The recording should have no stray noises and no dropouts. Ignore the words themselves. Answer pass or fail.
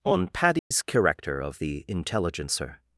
fail